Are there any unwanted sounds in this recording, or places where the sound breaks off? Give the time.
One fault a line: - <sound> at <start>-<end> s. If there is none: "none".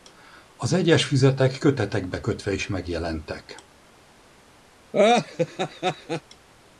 - laugh at 4.9-6.2 s